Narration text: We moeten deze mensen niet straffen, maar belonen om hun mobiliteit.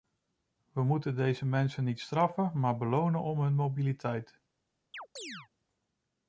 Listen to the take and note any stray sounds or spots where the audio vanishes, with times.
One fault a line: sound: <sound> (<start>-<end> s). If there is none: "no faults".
sound: chirp (4.9-5.5 s)